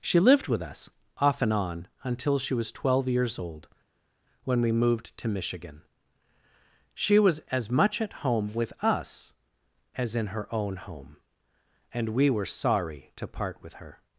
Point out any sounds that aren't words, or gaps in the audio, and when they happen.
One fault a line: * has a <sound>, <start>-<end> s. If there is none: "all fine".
all fine